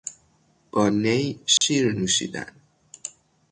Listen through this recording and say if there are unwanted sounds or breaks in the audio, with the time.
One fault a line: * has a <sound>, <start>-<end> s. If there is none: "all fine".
* has a dropout, 1.6-1.6 s